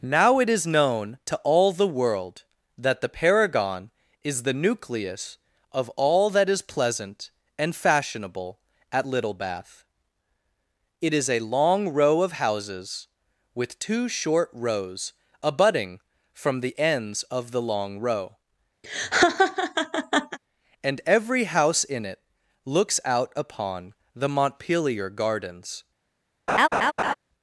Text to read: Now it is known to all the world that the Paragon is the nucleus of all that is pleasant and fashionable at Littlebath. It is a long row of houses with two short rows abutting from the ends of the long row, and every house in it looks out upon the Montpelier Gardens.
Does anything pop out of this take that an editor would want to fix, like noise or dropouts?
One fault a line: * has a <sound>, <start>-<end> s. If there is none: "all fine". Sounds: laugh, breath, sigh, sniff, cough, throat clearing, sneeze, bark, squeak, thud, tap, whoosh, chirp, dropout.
* has a laugh, 18.8-20.4 s
* has a laugh, 26.5-27.1 s